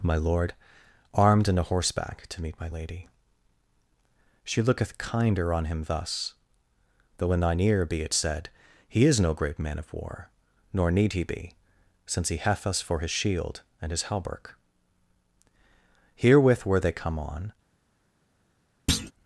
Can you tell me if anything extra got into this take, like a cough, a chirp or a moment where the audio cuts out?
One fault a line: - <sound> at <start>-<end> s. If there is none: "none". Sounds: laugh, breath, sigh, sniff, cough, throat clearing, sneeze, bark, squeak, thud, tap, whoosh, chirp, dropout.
- thud at 18.9-19.1 s